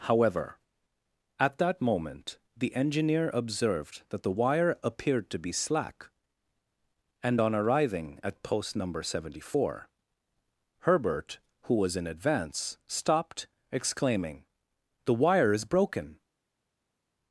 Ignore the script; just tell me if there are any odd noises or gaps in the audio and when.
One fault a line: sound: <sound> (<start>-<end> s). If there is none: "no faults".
no faults